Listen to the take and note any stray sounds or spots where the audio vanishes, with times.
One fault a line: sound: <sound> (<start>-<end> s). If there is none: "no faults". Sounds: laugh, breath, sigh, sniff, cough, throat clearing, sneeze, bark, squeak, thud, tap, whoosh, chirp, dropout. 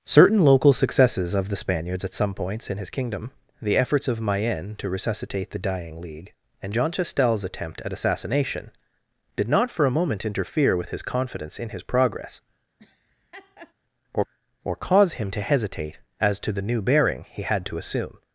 sound: laugh (12.8-13.7 s)